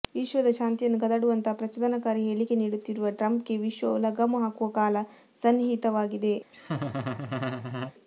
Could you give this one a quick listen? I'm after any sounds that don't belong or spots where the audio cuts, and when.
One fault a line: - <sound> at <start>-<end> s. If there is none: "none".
- laugh at 6.5-7.9 s